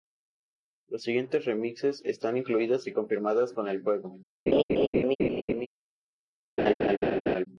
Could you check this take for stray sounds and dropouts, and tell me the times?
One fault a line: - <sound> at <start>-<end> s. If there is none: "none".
- laugh at 4.5-5.7 s
- laugh at 6.6-7.5 s